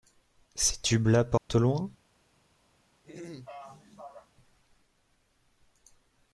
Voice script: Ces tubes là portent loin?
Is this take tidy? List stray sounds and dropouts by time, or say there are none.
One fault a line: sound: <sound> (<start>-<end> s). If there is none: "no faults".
sound: dropout (1.4-1.5 s)
sound: throat clearing (3.0-4.3 s)